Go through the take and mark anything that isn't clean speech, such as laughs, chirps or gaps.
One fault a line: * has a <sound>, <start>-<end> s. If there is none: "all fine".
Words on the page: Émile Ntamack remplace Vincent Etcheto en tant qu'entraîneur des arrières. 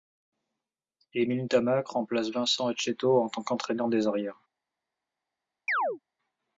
* has a chirp, 5.7-6.0 s